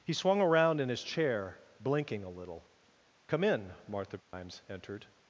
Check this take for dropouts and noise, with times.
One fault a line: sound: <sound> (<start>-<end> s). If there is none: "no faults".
sound: dropout (4.2-4.3 s)